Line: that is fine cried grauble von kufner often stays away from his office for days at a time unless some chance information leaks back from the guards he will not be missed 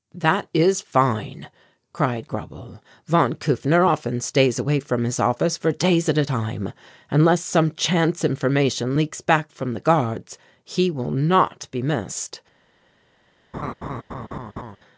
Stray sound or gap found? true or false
true